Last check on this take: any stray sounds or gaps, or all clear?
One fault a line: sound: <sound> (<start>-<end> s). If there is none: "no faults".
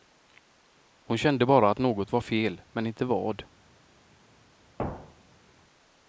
sound: thud (4.8-5.5 s)